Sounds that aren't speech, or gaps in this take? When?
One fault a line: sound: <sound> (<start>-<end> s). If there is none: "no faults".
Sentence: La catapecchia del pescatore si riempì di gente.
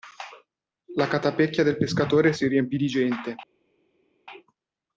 no faults